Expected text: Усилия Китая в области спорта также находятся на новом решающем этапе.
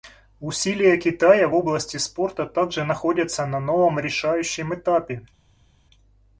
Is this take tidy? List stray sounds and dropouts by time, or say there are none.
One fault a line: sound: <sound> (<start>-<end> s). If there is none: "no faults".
no faults